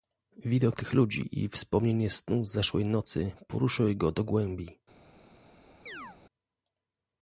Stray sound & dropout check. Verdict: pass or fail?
fail